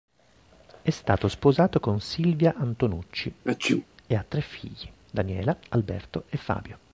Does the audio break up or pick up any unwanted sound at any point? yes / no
yes